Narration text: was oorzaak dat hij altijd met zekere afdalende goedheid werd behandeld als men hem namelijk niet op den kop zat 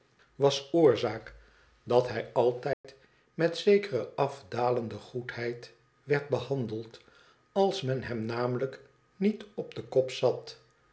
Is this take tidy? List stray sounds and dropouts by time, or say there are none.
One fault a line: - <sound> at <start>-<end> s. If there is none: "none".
- dropout at 2.7-2.8 s